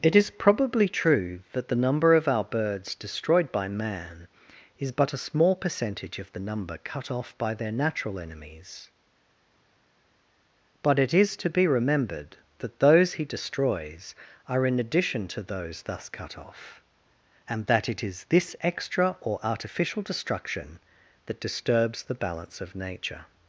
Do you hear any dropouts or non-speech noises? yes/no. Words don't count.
no